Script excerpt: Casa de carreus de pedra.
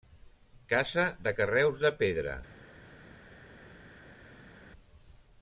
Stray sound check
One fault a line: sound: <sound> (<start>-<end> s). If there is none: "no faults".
no faults